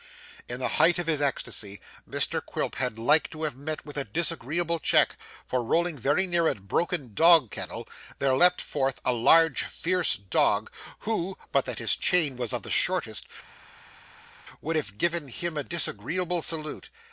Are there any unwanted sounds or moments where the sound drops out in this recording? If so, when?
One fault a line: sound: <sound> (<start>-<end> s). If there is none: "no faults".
no faults